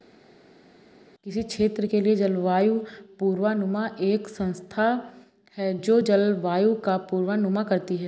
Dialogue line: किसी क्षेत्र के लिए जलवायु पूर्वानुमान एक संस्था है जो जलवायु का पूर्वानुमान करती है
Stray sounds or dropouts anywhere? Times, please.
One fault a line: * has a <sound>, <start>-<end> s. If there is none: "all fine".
all fine